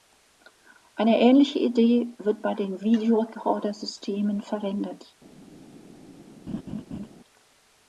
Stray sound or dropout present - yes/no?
yes